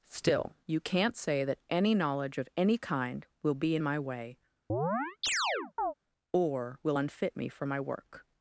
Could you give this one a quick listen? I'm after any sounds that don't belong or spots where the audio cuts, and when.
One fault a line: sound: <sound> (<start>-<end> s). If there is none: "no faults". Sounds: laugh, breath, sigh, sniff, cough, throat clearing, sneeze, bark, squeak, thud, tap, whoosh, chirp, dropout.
sound: chirp (4.7-5.9 s)